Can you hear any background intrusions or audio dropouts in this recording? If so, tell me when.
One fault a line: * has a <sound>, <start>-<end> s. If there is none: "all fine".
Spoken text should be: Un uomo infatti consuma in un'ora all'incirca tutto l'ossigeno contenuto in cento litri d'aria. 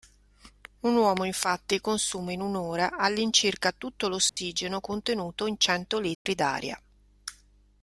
* has a dropout, 4.3-4.4 s
* has a dropout, 6.1-6.3 s